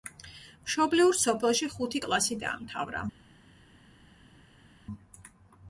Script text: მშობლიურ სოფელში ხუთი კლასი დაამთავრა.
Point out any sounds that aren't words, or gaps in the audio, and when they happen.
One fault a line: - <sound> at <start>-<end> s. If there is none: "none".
none